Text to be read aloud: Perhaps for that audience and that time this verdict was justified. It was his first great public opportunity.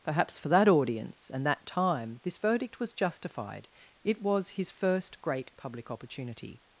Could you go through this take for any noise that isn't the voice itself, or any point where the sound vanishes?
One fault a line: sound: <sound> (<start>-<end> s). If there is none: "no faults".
no faults